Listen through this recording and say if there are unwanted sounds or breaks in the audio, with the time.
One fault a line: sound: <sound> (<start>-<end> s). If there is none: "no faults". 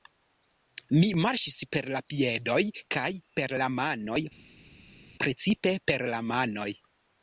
no faults